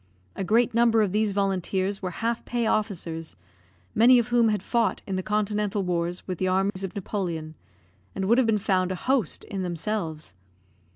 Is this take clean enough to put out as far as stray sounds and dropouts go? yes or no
no